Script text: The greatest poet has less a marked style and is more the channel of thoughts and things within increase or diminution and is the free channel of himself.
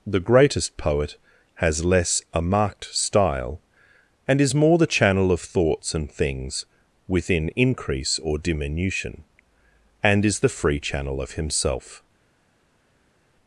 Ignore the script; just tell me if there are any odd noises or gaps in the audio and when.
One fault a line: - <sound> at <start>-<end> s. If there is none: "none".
none